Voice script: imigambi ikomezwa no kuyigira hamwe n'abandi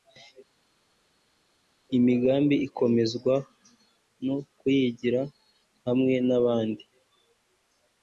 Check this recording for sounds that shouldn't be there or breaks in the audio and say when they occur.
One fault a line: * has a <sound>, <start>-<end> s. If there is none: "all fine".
all fine